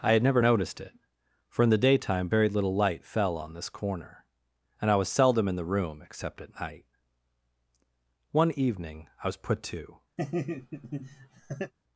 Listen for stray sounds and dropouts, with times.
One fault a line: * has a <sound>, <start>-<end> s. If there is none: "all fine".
* has a laugh, 10.2-11.7 s